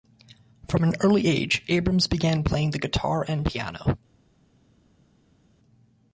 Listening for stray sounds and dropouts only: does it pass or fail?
pass